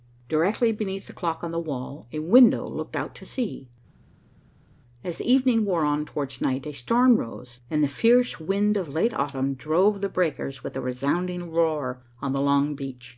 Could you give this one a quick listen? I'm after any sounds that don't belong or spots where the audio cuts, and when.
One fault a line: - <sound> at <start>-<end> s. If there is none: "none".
none